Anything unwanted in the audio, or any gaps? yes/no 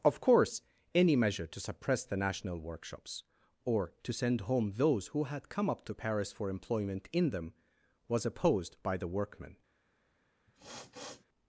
yes